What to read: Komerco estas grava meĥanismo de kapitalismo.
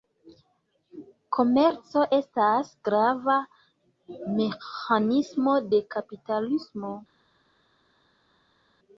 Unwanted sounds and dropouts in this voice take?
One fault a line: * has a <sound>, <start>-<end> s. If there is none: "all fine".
all fine